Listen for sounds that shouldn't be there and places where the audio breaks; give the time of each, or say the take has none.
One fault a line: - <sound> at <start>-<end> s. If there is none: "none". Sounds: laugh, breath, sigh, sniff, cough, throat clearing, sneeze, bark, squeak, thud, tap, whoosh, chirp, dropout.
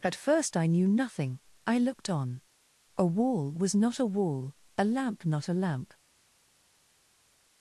none